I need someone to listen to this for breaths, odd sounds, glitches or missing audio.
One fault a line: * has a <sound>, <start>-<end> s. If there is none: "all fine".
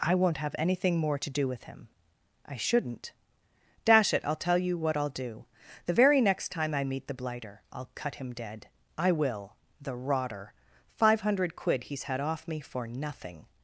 all fine